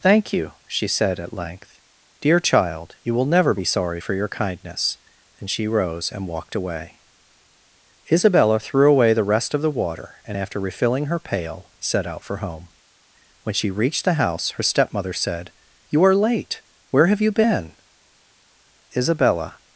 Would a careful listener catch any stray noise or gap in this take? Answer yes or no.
no